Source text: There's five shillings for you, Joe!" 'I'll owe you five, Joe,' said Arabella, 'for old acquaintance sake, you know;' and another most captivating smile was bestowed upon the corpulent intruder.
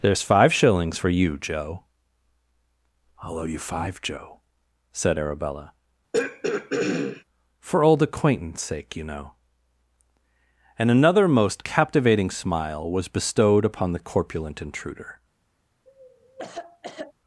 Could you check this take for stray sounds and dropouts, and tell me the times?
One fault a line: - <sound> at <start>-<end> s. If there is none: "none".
- throat clearing at 6.1-7.2 s
- cough at 15.9-17.1 s